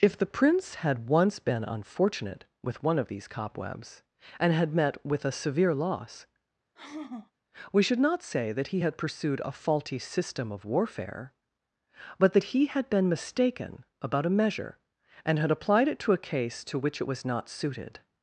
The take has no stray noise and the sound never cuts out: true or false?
false